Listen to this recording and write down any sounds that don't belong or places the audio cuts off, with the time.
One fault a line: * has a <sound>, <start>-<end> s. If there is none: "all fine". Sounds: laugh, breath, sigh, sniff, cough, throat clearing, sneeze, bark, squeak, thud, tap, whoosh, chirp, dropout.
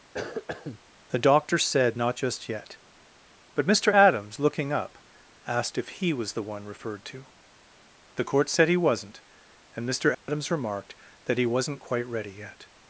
* has a cough, 0.1-0.8 s
* has a dropout, 10.1-10.3 s